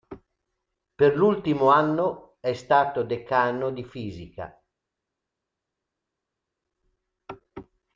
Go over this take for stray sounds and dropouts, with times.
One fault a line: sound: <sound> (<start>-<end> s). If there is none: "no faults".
no faults